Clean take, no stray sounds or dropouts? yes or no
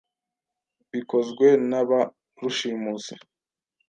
yes